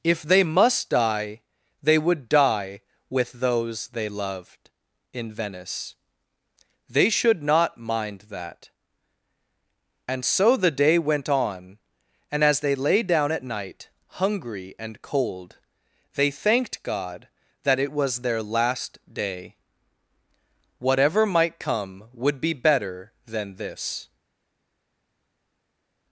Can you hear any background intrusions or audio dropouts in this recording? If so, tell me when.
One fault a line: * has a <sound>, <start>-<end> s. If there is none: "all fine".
all fine